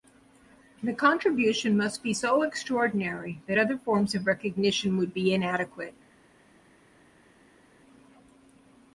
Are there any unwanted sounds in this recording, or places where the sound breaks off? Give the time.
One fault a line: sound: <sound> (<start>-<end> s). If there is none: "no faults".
no faults